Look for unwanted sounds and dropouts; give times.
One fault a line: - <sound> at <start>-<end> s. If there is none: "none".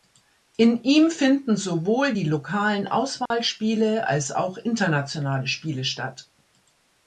- dropout at 3.3-3.3 s